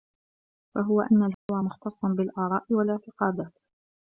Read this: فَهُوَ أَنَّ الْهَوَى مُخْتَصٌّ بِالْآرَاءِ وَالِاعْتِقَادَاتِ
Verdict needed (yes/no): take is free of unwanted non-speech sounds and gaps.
no